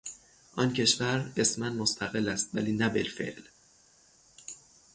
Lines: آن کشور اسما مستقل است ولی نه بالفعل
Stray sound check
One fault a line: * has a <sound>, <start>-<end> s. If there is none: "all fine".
all fine